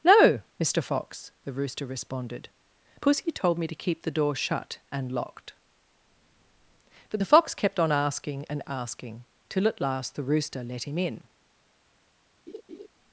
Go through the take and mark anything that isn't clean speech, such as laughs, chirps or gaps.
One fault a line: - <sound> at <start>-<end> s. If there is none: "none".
- laugh at 12.5-12.9 s